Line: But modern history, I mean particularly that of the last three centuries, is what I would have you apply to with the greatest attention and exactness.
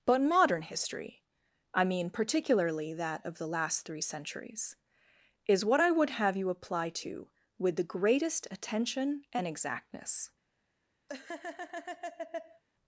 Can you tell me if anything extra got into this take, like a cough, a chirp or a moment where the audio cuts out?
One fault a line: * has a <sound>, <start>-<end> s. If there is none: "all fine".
* has a laugh, 11.1-12.6 s